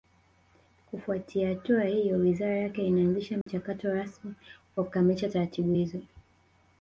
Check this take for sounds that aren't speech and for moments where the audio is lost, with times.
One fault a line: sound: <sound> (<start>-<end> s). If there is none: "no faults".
sound: dropout (3.4-3.5 s)